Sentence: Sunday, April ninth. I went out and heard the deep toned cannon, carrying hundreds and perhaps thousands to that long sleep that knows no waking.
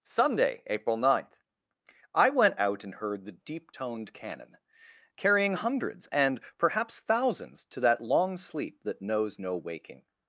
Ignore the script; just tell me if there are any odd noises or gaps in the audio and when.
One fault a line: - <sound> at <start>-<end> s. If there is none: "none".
none